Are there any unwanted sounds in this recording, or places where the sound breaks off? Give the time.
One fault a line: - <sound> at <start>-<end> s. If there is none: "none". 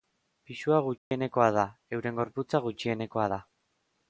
- dropout at 1.0-1.1 s